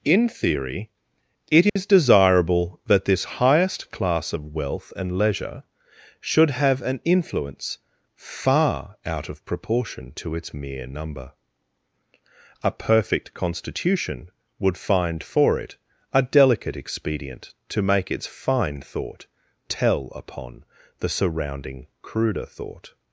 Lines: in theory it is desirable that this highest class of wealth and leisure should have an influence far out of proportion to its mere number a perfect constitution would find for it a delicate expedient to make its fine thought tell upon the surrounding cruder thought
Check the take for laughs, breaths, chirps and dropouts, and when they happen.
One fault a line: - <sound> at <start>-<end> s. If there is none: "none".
- dropout at 1.7-1.8 s